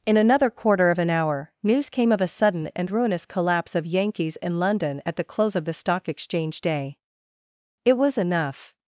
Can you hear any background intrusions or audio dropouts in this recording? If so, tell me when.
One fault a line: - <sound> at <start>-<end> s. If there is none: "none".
none